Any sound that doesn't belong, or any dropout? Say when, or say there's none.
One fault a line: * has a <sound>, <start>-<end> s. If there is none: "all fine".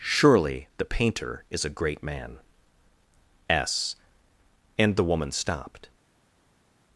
all fine